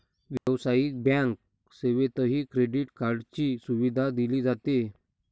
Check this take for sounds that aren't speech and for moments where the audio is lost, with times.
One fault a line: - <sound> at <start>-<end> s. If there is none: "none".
- dropout at 0.4-0.5 s